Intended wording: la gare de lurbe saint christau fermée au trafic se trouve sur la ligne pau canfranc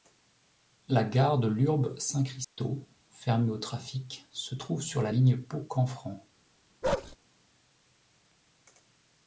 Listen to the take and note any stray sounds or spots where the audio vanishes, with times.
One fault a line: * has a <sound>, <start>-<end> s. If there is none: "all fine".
* has a dropout, 2.4-2.6 s
* has a bark, 6.8-7.2 s